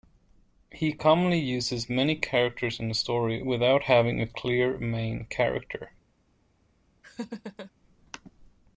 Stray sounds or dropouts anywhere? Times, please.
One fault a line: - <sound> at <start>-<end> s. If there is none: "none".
- laugh at 7.0-7.7 s